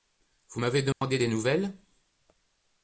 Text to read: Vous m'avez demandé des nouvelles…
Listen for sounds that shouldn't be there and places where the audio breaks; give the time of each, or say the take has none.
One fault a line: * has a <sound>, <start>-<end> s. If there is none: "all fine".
* has a dropout, 0.9-1.0 s